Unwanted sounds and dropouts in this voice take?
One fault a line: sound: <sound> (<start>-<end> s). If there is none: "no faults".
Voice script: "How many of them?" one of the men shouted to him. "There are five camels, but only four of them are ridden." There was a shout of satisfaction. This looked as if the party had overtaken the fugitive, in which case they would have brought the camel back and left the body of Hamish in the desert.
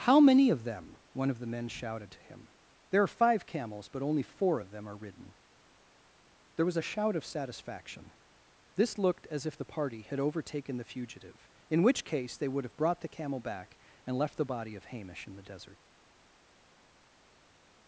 no faults